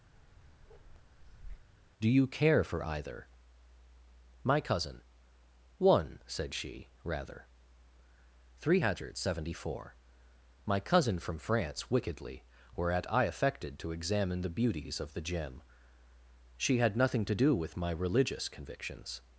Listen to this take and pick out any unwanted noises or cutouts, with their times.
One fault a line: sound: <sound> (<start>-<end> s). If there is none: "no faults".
sound: bark (0.1-1.7 s)